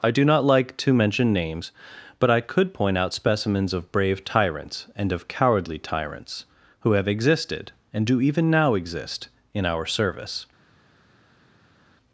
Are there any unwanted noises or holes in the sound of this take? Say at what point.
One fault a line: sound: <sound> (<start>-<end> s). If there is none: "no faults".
no faults